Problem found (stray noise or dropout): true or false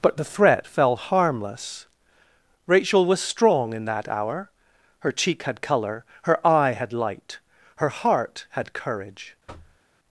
true